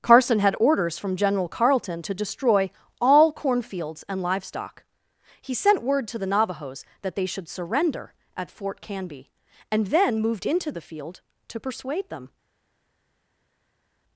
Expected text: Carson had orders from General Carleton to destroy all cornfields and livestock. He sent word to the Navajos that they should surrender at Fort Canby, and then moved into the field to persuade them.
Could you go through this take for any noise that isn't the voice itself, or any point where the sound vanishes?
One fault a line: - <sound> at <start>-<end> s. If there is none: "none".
none